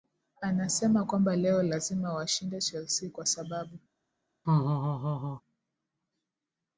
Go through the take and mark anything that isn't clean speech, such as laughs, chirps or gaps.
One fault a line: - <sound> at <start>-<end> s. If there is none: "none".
- laugh at 4.4-5.4 s